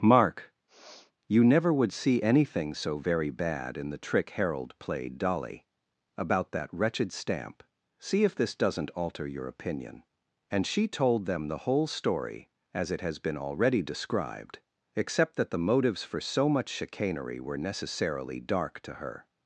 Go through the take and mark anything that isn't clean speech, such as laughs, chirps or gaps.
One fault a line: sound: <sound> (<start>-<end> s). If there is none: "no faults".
sound: sniff (0.7-1.1 s)